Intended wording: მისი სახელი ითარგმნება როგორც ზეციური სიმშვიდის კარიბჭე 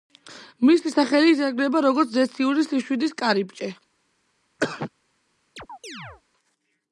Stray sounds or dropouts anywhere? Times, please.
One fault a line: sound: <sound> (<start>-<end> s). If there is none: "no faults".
sound: cough (4.6-4.9 s)
sound: chirp (5.6-6.2 s)